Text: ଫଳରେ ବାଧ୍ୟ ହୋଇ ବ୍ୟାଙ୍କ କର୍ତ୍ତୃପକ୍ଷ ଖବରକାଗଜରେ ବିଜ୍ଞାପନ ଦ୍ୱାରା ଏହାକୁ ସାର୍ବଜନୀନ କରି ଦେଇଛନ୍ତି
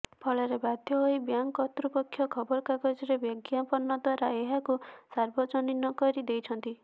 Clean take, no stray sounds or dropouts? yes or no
yes